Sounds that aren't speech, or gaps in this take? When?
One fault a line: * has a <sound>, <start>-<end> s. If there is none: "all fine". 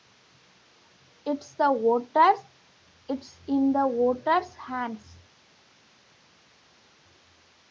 all fine